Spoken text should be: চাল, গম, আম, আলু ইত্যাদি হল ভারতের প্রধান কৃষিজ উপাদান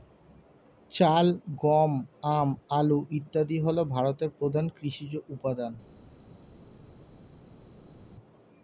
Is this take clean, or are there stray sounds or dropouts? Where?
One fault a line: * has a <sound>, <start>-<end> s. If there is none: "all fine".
all fine